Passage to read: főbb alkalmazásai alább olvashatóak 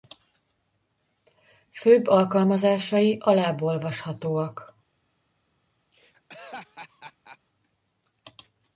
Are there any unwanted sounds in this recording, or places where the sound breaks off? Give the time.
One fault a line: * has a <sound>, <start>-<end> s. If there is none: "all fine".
* has a laugh, 5.9-7.4 s